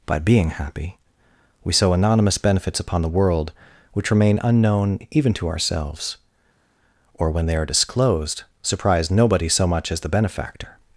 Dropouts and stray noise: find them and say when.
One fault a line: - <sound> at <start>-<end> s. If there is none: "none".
none